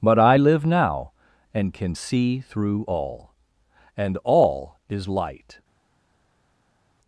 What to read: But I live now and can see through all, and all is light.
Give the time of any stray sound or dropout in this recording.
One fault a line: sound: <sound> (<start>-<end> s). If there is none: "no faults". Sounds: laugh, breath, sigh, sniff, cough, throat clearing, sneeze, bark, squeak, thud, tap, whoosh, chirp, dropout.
no faults